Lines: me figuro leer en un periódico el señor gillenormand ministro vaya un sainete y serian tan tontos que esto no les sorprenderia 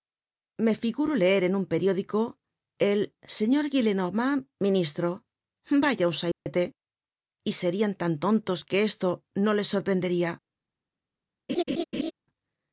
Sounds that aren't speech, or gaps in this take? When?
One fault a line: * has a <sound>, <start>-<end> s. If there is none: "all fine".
* has a dropout, 6.3-6.5 s
* has a laugh, 11.5-12.1 s